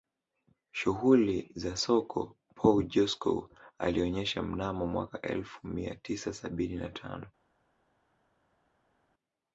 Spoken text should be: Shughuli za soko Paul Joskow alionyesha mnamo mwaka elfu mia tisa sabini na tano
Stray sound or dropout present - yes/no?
no